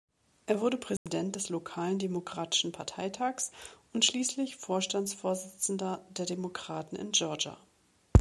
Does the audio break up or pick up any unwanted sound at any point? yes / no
yes